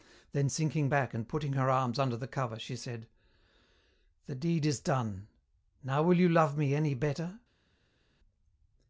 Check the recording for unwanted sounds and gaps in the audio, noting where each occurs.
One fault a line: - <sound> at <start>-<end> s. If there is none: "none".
none